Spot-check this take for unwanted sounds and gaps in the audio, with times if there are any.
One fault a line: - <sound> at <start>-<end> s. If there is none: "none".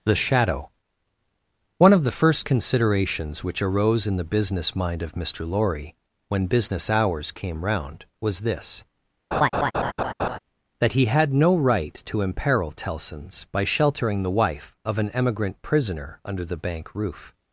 - laugh at 9.3-10.4 s